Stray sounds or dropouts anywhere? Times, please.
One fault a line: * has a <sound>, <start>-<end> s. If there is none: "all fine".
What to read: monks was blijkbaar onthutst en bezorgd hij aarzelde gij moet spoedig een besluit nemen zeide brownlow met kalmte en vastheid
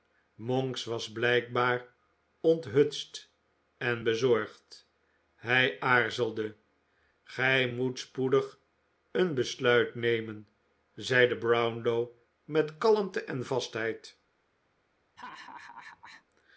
* has a laugh, 15.2-16.2 s